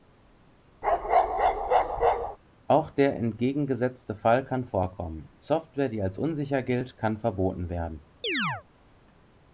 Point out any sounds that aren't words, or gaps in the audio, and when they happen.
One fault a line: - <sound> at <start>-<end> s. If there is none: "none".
- bark at 0.8-2.4 s
- chirp at 8.2-8.6 s